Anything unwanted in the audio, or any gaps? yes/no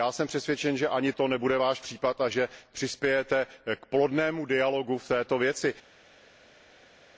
no